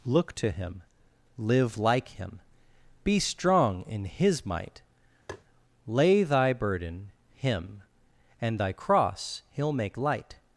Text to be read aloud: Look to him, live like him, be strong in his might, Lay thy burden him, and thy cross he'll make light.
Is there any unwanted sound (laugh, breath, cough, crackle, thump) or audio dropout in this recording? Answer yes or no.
yes